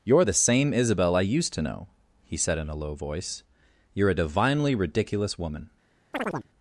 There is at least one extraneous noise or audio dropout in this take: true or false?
true